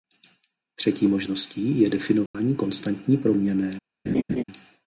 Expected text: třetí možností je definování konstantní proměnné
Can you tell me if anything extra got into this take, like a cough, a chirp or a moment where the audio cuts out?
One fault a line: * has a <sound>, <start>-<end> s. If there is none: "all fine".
* has a dropout, 2.3-2.3 s
* has a laugh, 4.1-4.4 s